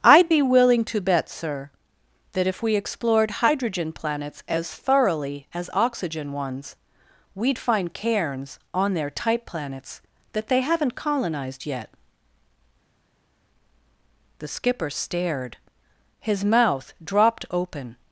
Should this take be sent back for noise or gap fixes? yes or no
no